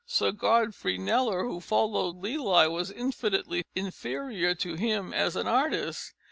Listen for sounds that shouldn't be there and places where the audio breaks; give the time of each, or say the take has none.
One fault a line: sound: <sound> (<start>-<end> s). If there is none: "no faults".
no faults